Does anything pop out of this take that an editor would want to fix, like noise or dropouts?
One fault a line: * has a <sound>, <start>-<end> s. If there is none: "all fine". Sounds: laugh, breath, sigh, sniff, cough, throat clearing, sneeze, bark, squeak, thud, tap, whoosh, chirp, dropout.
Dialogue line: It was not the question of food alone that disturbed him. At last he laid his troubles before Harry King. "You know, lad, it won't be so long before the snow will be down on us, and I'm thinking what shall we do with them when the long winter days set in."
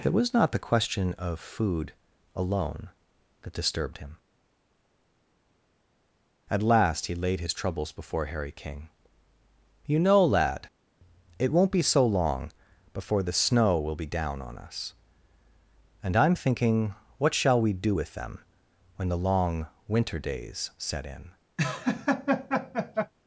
* has a laugh, 21.6-23.1 s